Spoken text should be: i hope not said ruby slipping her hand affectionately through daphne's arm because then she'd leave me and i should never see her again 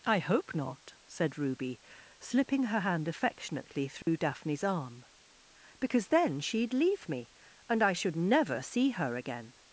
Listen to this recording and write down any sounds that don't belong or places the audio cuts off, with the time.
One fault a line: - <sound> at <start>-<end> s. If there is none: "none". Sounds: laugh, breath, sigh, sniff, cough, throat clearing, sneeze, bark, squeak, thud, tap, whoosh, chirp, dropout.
- dropout at 4.0-4.1 s